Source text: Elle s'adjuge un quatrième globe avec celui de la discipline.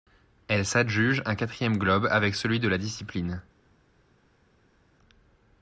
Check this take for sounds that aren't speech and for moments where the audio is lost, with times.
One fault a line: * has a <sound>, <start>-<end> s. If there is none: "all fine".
all fine